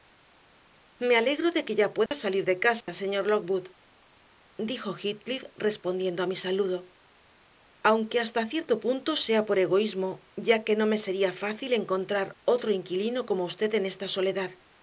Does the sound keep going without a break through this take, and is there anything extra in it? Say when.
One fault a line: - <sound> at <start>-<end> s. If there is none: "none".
- dropout at 2.1-2.1 s
- dropout at 2.8-2.9 s